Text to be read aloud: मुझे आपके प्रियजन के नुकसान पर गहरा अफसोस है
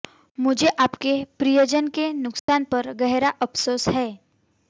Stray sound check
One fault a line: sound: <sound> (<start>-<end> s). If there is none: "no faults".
sound: dropout (2.4-2.5 s)